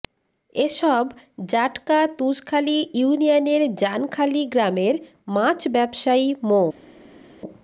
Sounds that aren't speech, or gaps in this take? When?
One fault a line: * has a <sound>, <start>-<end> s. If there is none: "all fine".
all fine